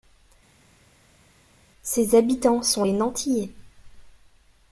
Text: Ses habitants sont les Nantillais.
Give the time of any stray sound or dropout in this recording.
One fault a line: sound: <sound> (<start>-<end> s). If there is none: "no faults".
no faults